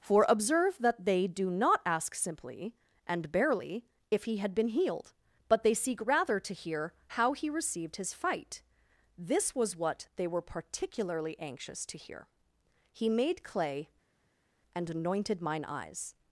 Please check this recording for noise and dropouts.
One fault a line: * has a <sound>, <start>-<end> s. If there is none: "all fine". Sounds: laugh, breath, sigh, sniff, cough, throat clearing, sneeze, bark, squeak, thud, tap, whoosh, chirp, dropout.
all fine